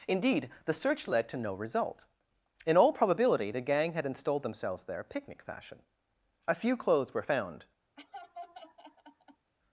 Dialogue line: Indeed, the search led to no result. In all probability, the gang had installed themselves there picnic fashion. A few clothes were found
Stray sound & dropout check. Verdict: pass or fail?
fail